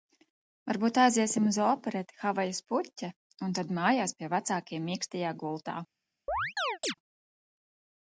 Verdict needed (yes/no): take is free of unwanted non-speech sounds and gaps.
no